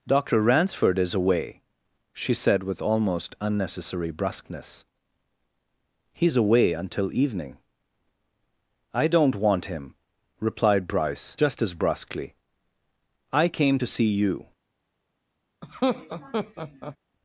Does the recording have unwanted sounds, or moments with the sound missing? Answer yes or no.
yes